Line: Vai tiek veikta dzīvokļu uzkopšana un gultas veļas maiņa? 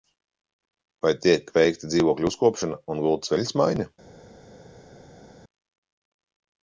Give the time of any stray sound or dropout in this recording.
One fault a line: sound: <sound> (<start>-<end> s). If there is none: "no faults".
no faults